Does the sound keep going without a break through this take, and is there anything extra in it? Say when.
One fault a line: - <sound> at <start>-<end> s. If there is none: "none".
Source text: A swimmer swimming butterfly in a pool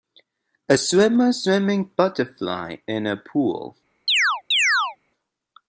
- chirp at 4.1-5.0 s